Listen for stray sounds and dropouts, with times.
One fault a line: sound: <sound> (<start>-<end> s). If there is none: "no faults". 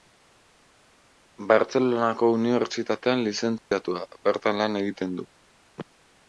sound: dropout (3.6-3.7 s)